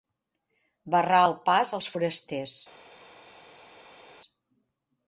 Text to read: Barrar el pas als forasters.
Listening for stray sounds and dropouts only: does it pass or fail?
pass